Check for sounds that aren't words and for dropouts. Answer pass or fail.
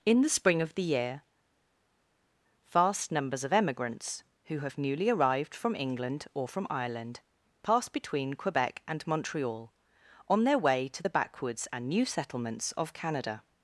pass